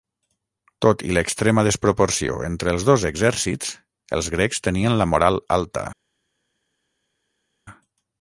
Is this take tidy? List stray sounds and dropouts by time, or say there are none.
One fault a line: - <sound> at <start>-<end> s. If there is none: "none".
none